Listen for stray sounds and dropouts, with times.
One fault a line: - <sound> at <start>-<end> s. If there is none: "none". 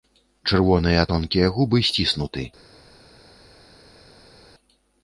none